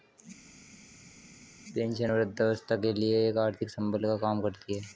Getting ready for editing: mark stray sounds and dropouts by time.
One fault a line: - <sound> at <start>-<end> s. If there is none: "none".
none